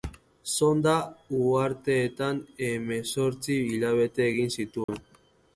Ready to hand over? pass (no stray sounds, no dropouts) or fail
fail